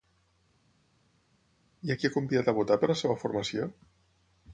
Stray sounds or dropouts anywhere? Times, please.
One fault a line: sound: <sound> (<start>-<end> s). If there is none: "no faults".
no faults